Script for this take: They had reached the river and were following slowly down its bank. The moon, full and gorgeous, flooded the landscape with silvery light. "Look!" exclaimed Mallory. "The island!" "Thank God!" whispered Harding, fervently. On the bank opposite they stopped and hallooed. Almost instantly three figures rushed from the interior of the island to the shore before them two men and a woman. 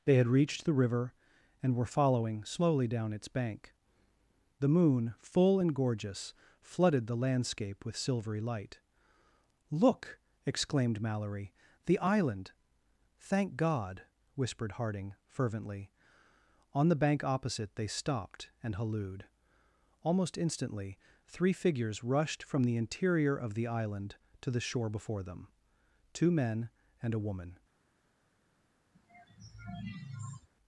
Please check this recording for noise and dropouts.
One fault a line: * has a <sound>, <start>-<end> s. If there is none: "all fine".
* has a sigh, 28.9-30.5 s